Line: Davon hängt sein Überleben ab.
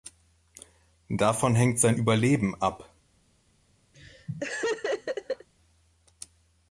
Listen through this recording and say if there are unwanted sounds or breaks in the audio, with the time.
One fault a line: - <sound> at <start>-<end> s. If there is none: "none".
- laugh at 3.9-5.5 s